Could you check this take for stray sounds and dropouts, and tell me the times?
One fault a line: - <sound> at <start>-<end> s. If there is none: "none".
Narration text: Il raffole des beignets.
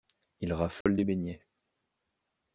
- dropout at 0.8-0.9 s